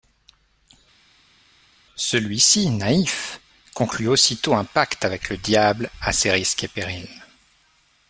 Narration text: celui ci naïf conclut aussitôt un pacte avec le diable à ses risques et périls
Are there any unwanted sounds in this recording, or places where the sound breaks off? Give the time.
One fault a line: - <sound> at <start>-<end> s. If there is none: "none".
none